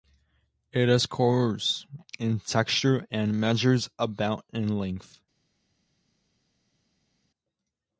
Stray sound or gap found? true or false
false